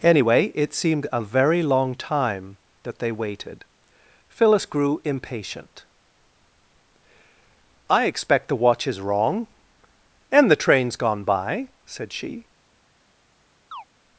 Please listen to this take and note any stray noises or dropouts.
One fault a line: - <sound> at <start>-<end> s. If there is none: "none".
- chirp at 13.7-13.8 s